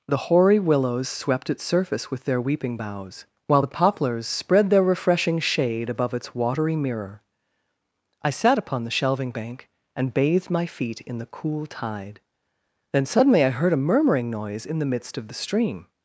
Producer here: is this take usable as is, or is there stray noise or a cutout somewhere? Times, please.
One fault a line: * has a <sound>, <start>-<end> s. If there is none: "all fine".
all fine